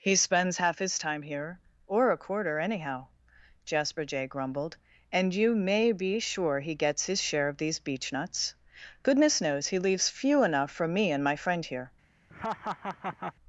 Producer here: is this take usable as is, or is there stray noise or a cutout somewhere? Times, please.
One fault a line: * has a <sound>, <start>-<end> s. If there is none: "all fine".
* has a laugh, 12.3-13.3 s